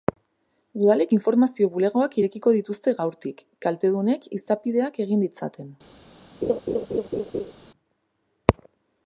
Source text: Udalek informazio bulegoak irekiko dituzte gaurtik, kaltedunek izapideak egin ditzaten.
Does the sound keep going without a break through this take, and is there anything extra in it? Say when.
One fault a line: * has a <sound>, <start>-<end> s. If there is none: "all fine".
* has a laugh, 6.4-7.5 s